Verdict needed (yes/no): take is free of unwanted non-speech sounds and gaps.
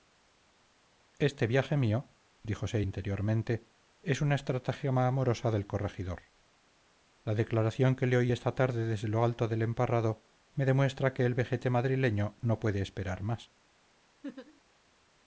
no